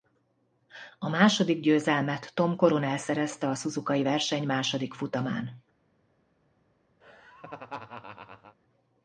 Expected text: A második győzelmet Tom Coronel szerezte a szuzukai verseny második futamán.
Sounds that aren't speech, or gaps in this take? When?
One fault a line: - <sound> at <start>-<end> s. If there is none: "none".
- laugh at 7.0-8.6 s